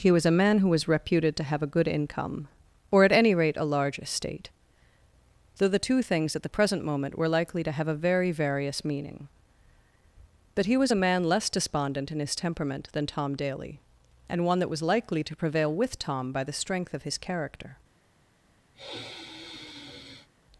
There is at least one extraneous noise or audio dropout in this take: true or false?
true